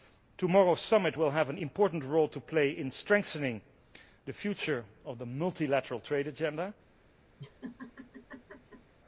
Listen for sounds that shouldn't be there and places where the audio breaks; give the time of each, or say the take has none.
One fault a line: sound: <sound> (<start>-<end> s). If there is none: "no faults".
sound: laugh (7.4-8.9 s)